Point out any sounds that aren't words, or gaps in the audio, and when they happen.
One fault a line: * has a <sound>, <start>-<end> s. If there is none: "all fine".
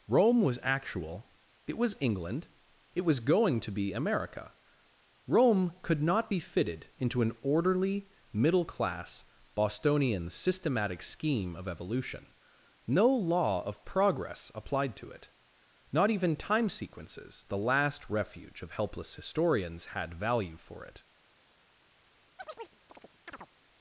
* has a chirp, 22.4-23.5 s